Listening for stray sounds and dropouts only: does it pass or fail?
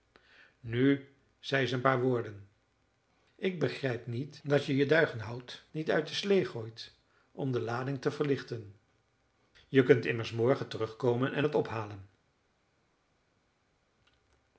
pass